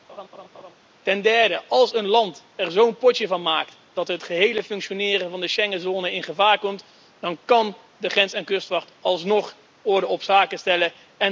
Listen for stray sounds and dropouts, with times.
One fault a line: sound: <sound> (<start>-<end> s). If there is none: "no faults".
sound: laugh (0.1-0.7 s)